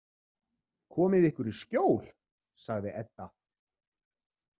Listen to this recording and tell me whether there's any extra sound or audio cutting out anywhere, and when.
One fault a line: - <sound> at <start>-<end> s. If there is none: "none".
none